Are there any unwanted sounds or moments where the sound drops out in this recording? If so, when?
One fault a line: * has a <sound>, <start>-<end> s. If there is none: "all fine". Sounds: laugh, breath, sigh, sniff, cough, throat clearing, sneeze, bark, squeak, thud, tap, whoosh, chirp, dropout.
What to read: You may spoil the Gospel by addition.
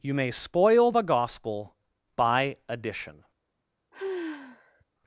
* has a sigh, 3.9-4.8 s